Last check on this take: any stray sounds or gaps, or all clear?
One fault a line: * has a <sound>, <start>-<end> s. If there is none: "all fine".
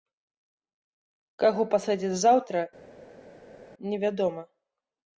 all fine